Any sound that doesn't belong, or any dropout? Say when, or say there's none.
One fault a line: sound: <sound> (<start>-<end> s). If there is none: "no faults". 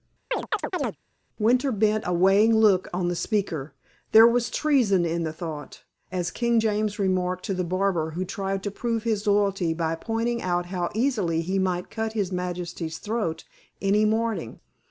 sound: chirp (0.3-1.0 s)